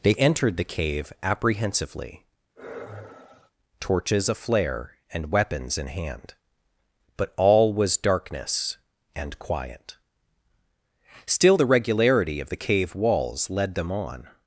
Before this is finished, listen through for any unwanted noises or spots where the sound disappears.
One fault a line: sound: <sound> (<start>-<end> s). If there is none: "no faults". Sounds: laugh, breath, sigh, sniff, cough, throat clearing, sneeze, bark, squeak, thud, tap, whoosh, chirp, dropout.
sound: sigh (2.6-3.5 s)